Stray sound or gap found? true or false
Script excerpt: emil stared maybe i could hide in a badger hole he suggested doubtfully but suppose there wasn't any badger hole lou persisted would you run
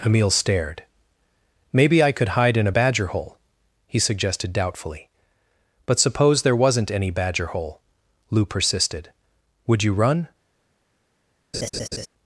true